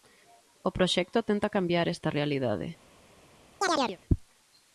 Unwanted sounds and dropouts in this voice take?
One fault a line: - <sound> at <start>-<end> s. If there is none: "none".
- chirp at 3.6-4.0 s